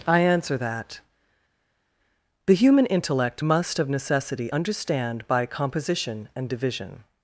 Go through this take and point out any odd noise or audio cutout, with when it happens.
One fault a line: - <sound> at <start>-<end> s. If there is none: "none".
none